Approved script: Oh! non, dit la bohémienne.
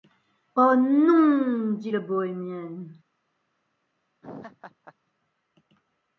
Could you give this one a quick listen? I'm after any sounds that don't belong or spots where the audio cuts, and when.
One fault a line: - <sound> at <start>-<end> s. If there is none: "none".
- laugh at 4.2-4.9 s